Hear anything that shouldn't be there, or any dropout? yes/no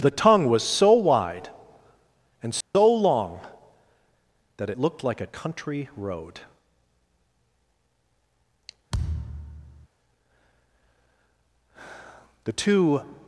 yes